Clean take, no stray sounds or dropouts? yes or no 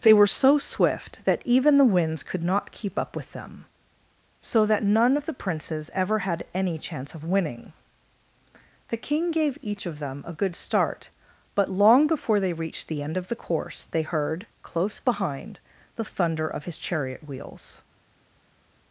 yes